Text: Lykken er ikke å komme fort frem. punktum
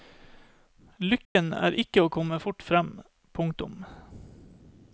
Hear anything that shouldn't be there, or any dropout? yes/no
yes